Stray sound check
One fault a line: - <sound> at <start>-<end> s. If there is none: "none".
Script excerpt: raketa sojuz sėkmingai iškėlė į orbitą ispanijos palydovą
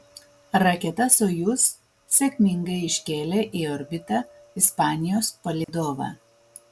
- dropout at 5.6-5.7 s